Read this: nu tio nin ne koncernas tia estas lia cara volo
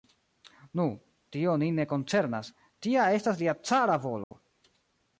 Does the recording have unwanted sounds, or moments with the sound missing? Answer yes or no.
yes